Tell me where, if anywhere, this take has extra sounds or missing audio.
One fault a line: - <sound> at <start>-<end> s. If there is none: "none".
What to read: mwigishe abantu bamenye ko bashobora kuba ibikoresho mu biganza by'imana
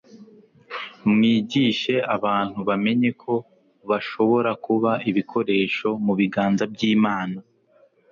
none